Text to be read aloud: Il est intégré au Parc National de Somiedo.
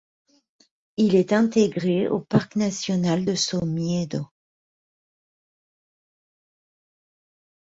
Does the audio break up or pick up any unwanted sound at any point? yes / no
no